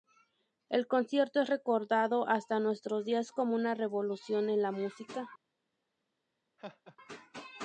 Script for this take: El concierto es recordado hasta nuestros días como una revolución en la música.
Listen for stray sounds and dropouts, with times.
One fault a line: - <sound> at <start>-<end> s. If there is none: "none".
- laugh at 6.6-7.0 s